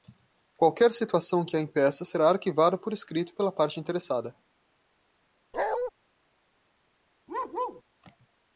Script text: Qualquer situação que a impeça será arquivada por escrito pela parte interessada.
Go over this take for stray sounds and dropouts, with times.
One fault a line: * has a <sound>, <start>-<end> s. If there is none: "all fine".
* has a bark, 5.5-5.9 s
* has a bark, 7.3-7.8 s